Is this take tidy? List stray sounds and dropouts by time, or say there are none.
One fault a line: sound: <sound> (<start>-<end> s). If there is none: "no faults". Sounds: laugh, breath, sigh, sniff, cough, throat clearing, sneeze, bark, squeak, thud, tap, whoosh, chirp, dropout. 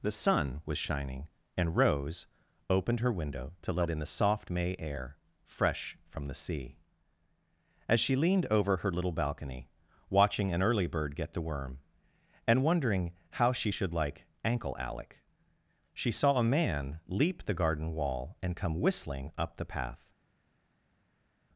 no faults